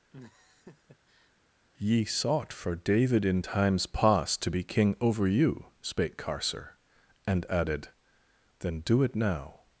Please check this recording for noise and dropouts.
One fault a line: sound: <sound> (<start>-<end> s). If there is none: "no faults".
sound: laugh (0.1-1.3 s)